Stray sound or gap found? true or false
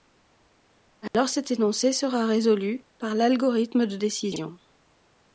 true